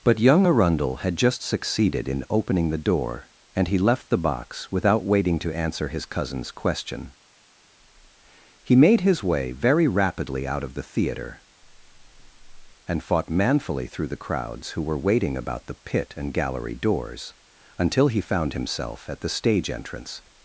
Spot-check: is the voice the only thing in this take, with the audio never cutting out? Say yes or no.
no